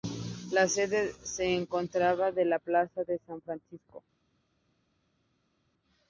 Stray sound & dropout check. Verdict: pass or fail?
pass